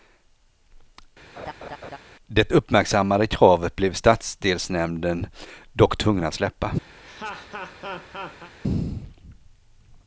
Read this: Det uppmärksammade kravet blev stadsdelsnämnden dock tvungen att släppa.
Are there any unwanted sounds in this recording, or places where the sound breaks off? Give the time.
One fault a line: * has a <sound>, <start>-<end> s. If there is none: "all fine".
* has a laugh, 1.4-2.0 s
* has a laugh, 7.0-8.5 s